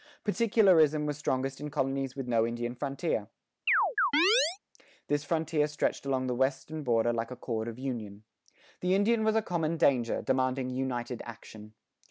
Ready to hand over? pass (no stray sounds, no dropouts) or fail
fail